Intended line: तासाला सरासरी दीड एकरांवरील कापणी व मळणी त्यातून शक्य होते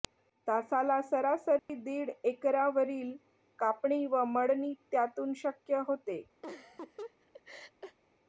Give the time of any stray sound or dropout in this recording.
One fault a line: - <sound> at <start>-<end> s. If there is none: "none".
- dropout at 1.6-1.7 s
- laugh at 6.4-8.0 s